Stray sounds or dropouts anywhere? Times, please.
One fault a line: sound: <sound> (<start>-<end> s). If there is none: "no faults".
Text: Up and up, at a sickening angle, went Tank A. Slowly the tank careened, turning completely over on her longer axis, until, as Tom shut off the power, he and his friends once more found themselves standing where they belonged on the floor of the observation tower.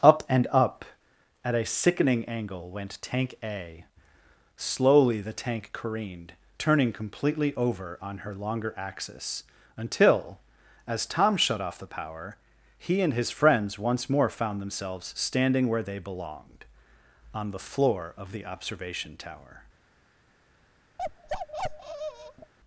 sound: bark (21.0-22.5 s)